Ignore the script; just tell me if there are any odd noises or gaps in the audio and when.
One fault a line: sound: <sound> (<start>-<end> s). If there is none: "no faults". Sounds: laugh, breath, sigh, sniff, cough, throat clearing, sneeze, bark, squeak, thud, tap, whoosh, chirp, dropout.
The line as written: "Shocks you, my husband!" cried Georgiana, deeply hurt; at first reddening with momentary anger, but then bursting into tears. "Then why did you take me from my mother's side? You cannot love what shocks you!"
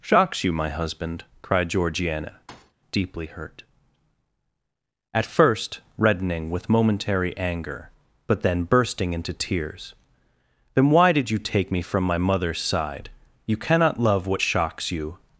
sound: thud (2.5-2.7 s)